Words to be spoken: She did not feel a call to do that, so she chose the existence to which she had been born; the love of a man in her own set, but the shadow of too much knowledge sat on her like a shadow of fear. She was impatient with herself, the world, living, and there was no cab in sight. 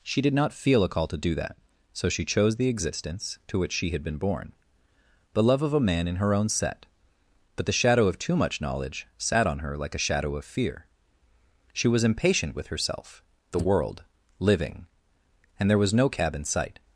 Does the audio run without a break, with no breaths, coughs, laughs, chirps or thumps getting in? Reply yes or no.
yes